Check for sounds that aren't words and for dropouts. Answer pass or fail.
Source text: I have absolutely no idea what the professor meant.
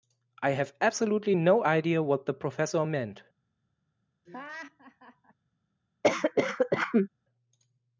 fail